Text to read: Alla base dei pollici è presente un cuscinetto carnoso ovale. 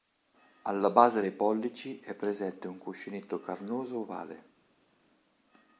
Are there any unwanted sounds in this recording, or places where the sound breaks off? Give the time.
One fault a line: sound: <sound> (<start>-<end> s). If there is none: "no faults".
no faults